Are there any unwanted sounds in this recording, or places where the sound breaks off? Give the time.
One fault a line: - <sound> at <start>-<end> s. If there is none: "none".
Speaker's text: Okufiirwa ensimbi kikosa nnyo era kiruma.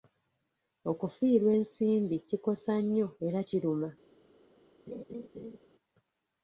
- laugh at 4.9-5.6 s